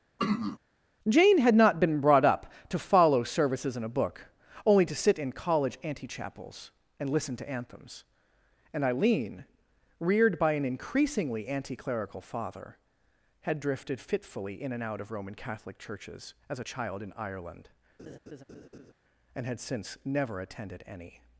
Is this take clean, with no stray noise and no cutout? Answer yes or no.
no